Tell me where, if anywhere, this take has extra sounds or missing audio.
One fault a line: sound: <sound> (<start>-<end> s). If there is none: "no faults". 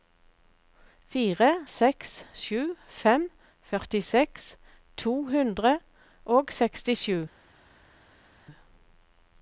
no faults